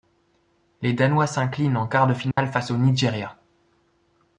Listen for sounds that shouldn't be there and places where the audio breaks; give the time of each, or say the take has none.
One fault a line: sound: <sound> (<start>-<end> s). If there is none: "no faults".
sound: dropout (2.3-2.4 s)